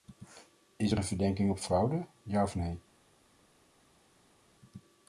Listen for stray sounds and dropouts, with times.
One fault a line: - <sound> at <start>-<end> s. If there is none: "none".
none